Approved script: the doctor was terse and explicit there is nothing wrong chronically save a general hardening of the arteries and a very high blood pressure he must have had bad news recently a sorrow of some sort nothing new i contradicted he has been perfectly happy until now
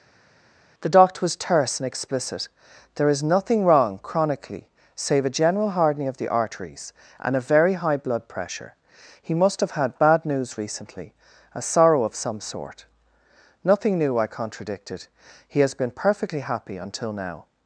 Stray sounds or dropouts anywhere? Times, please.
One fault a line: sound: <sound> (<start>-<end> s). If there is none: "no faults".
no faults